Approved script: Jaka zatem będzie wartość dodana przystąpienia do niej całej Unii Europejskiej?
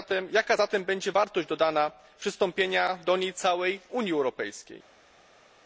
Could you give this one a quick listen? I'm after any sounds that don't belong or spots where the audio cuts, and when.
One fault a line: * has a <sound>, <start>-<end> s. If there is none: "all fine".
all fine